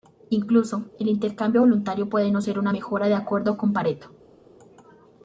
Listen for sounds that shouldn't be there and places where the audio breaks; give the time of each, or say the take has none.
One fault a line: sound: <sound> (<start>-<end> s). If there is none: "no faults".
no faults